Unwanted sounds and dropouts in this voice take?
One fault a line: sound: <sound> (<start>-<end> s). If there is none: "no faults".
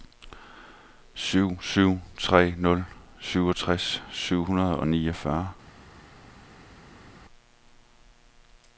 no faults